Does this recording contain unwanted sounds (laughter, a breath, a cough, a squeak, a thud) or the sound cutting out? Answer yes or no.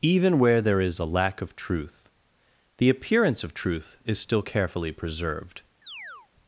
yes